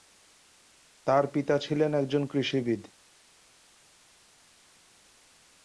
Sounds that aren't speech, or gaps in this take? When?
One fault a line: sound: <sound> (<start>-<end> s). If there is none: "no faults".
no faults